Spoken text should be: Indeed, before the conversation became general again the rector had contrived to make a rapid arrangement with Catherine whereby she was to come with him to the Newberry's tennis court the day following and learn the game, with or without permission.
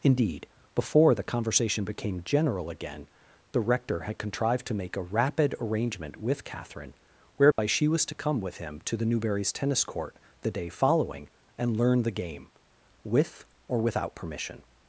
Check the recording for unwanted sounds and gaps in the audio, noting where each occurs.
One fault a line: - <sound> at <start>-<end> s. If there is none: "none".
- dropout at 7.5-7.6 s